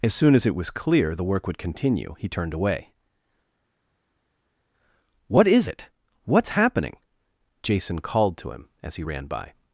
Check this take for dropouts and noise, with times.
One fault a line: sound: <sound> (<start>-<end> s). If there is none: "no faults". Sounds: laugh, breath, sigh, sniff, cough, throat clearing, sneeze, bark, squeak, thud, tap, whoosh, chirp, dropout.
no faults